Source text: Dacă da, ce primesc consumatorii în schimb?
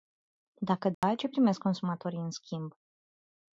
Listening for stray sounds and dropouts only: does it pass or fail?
fail